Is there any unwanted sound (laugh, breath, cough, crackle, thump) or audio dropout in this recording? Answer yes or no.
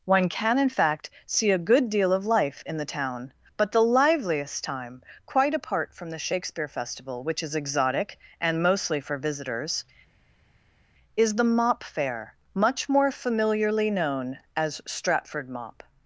no